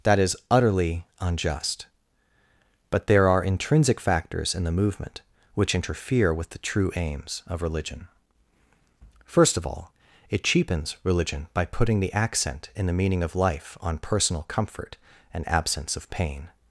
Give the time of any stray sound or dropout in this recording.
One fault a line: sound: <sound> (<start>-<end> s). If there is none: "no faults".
no faults